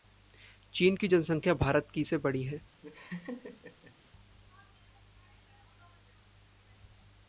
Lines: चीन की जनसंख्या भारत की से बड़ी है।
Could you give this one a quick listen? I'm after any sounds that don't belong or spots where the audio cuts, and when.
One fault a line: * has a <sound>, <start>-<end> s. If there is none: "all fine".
* has a laugh, 2.8-4.0 s